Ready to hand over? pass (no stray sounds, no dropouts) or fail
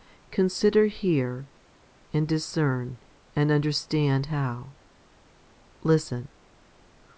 pass